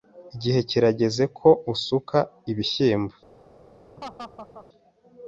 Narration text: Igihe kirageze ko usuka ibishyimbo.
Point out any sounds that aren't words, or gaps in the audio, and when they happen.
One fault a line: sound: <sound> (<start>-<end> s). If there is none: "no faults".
sound: laugh (4.0-4.7 s)